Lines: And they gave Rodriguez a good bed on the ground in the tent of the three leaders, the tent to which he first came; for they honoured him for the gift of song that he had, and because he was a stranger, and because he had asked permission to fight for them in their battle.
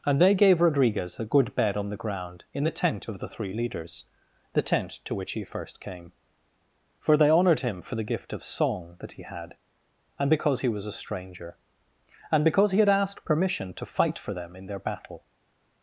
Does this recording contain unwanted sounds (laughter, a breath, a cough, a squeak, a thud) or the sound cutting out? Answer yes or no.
no